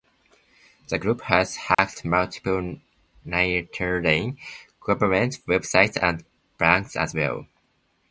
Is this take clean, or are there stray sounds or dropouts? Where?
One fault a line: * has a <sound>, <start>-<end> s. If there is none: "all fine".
* has a dropout, 1.7-1.8 s